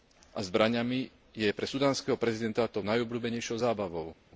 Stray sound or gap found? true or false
false